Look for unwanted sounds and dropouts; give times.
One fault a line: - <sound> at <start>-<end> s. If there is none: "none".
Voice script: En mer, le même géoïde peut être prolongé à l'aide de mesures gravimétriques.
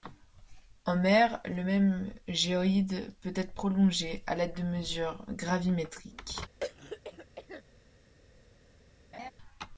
- throat clearing at 6.6-7.6 s
- laugh at 9.1-9.3 s